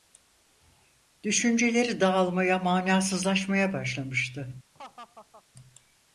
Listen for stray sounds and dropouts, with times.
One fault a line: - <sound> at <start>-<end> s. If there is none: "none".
- laugh at 4.7-5.4 s